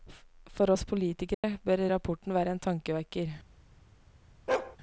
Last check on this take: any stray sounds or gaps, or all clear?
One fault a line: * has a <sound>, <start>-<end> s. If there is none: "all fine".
* has a dropout, 1.3-1.4 s
* has a bark, 4.5-4.8 s